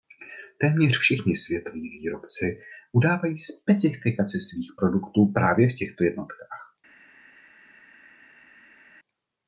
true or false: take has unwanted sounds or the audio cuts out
false